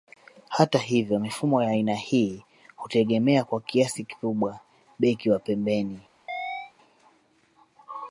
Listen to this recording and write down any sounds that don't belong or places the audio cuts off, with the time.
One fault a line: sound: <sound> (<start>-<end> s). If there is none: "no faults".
sound: chirp (6.3-6.7 s)